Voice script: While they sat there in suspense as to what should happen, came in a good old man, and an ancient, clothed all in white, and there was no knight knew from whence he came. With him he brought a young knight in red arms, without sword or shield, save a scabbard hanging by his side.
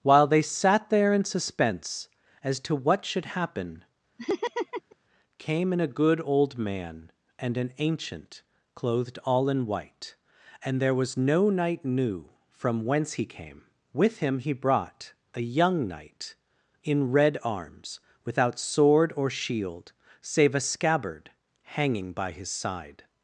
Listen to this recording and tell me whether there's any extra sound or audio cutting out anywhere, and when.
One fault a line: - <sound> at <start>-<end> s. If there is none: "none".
- laugh at 4.2-5.0 s